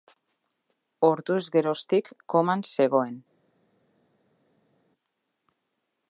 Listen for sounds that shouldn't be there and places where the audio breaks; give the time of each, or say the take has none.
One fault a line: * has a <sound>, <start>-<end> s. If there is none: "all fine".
all fine